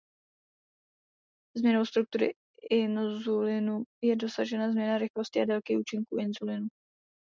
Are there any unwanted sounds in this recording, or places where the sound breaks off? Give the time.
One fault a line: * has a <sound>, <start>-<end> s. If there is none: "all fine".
all fine